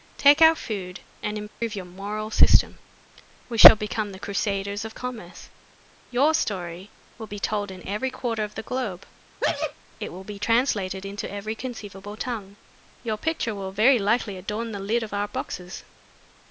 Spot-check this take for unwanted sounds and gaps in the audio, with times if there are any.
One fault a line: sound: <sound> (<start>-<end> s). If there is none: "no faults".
sound: dropout (1.5-1.6 s)
sound: sneeze (9.4-9.7 s)